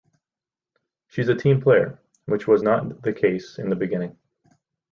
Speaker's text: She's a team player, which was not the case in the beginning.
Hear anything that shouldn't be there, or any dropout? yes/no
no